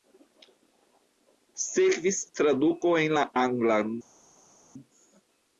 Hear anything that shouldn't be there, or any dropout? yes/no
no